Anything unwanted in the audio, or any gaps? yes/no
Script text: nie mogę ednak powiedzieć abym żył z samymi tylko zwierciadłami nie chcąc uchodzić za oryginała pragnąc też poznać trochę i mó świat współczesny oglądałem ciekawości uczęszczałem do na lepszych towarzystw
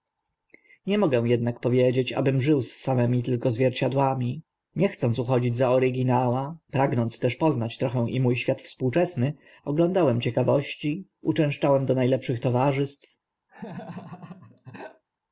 yes